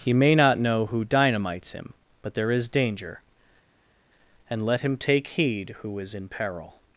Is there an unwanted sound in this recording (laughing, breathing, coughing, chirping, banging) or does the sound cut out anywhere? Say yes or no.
no